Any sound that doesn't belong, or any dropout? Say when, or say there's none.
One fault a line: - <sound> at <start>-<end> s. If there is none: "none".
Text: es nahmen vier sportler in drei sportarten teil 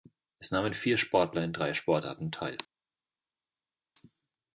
none